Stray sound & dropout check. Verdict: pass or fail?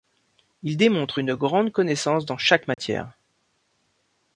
fail